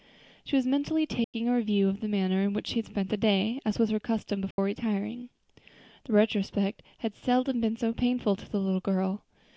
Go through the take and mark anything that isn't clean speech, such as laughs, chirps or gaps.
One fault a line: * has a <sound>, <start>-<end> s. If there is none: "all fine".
* has a dropout, 1.2-1.3 s
* has a dropout, 4.5-4.6 s